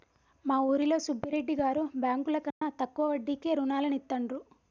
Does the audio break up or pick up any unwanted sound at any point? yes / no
yes